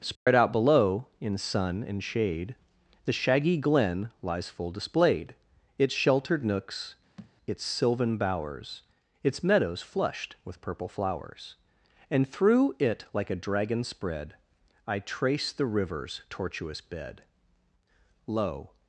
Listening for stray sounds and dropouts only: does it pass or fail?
fail